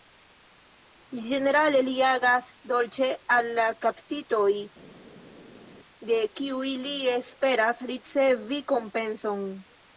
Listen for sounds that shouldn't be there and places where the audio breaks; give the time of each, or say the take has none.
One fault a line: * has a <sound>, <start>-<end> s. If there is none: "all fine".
all fine